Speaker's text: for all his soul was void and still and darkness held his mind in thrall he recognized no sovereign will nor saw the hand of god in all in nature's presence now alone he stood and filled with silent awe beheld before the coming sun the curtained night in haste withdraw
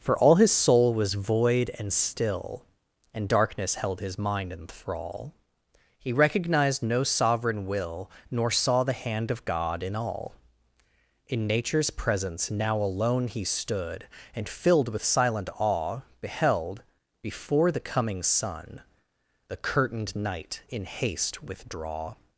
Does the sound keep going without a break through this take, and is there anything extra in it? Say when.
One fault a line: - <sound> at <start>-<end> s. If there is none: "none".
none